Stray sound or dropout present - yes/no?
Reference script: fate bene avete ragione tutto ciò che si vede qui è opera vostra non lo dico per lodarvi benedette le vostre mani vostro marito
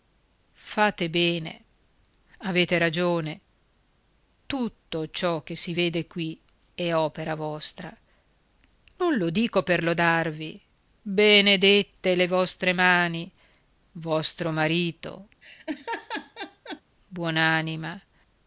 yes